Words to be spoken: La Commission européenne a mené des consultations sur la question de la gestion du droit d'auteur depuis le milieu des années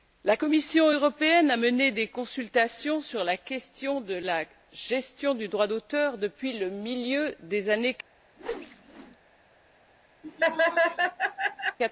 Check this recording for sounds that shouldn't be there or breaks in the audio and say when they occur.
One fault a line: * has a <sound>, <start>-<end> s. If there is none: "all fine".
* has a whoosh, 8.4-9.2 s
* has a laugh, 10.2-11.8 s